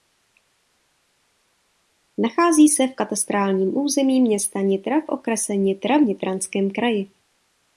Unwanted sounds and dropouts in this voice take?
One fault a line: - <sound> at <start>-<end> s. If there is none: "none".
none